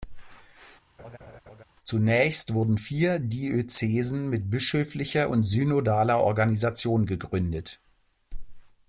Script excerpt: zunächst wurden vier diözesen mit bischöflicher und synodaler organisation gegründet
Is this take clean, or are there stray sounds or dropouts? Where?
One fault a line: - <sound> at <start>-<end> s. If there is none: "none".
- laugh at 1.0-1.6 s